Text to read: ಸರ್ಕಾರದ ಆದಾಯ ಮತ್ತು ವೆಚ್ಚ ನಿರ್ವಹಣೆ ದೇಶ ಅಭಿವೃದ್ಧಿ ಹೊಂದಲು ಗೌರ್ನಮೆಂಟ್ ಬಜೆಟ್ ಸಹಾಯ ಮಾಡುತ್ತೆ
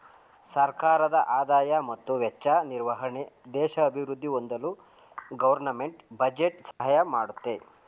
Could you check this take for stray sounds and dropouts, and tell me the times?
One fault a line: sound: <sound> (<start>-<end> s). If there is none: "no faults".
sound: dropout (6.7-6.8 s)